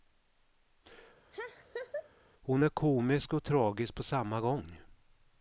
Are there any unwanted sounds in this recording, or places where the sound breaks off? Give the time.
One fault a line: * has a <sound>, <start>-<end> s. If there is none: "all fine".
* has a laugh, 1.3-2.1 s